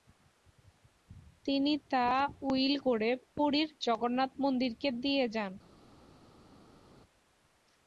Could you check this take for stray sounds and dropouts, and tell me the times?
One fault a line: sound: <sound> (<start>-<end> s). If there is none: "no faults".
no faults